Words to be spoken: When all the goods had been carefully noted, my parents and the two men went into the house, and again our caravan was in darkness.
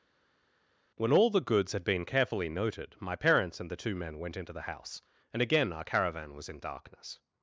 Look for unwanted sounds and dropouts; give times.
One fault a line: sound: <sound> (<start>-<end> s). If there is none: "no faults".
no faults